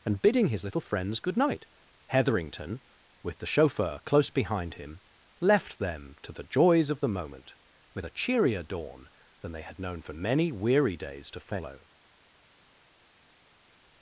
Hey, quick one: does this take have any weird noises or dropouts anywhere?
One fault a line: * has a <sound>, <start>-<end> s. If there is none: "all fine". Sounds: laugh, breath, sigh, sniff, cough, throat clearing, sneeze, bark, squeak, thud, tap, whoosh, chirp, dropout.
all fine